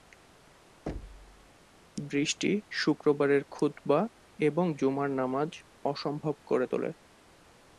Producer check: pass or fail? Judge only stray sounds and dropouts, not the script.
fail